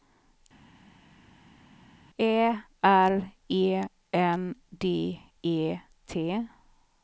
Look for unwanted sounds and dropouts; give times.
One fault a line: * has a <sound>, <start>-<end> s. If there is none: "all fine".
all fine